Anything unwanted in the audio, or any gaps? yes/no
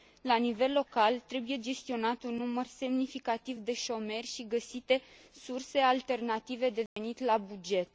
yes